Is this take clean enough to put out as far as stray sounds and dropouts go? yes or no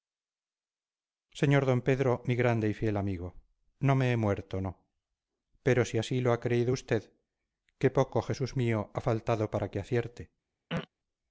no